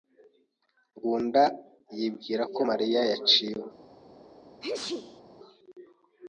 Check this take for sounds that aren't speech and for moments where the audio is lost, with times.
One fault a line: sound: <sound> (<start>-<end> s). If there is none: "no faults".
sound: sneeze (4.6-5.2 s)